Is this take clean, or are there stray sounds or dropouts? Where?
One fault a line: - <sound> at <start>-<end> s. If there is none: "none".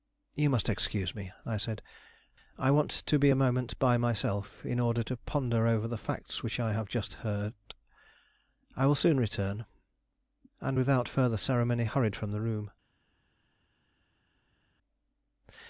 none